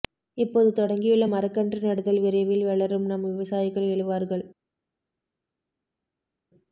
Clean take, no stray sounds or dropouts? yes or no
yes